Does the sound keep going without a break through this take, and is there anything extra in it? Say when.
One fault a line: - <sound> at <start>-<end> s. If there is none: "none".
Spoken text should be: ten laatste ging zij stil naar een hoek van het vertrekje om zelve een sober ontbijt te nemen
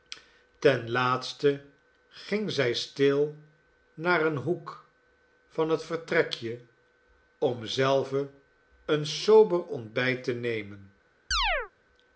- chirp at 11.3-11.7 s